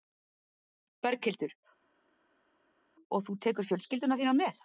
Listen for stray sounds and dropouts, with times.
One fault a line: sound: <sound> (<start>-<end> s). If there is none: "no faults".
no faults